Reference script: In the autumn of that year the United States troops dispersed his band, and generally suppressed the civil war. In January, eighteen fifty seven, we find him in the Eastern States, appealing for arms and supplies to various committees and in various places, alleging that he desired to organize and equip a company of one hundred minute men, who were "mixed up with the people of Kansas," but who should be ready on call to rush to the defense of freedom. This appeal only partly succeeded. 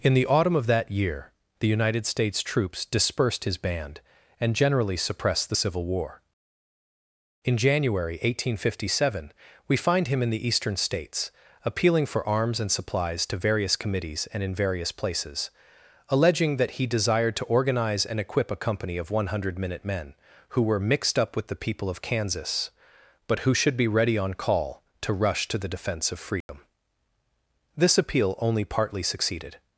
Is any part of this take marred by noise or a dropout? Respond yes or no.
yes